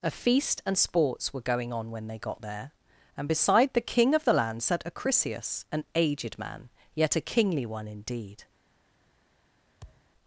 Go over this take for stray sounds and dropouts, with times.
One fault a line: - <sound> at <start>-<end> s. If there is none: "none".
- thud at 9.8-10.1 s